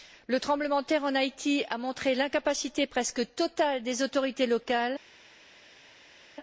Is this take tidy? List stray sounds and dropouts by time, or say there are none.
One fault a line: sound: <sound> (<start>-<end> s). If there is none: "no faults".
no faults